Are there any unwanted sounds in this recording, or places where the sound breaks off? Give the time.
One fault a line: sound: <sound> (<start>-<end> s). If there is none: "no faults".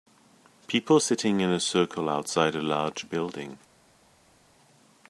no faults